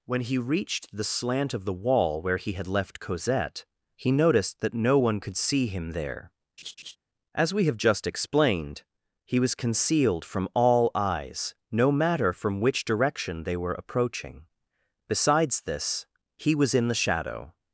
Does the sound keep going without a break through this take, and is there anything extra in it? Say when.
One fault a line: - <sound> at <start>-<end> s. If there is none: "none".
- laugh at 6.6-7.0 s